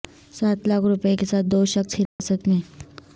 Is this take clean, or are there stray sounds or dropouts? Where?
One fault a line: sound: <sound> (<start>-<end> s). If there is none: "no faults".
sound: dropout (2.1-2.2 s)